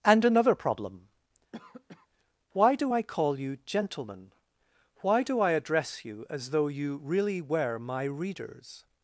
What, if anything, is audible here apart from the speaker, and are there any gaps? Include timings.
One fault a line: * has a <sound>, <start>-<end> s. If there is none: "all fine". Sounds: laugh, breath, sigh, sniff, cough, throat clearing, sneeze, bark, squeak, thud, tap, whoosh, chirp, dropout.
* has a cough, 1.5-2.1 s